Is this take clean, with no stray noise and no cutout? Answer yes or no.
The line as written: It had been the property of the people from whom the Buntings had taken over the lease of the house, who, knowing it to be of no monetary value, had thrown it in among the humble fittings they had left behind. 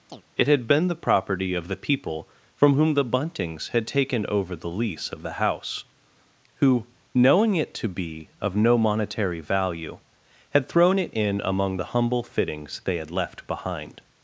no